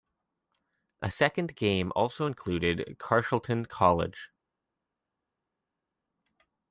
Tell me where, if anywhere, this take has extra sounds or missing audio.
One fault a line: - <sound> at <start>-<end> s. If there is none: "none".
none